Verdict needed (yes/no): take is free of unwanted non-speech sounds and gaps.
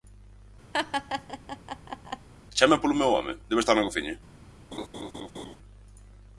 no